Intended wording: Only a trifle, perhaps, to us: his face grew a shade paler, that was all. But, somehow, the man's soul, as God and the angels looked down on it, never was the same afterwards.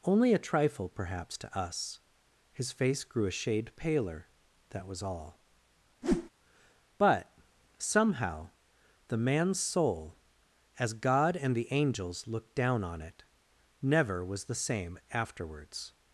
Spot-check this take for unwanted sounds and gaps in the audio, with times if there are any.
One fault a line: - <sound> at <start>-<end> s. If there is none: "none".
- whoosh at 6.0-6.3 s